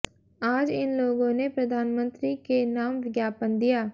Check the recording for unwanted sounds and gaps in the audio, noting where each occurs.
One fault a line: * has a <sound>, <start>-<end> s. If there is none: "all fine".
all fine